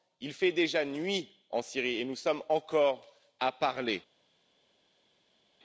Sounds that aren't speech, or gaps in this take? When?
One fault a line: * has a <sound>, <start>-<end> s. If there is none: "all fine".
all fine